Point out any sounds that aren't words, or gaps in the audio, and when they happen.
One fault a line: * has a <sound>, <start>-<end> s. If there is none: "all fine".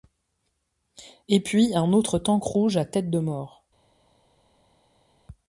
all fine